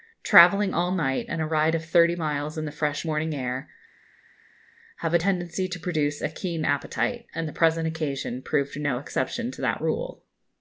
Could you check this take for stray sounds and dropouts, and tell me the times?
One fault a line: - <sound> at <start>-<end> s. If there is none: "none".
none